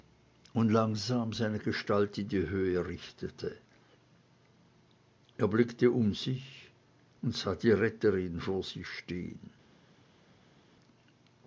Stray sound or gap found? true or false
false